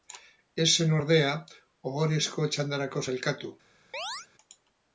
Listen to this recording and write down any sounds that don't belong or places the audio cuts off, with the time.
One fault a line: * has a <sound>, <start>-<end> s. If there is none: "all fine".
* has a chirp, 3.9-4.3 s